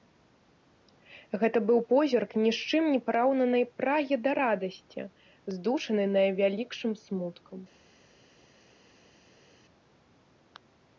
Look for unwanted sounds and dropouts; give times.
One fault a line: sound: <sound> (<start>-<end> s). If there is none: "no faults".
no faults